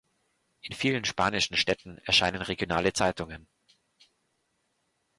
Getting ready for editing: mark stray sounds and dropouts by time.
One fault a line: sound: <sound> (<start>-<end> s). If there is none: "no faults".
no faults